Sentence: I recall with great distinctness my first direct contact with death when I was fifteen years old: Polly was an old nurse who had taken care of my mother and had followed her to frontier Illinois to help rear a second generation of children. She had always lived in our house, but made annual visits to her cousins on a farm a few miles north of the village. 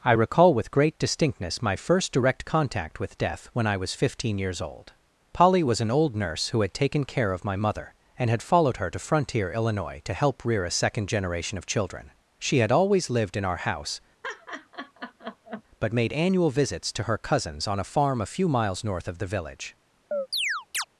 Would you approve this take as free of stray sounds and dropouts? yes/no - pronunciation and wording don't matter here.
no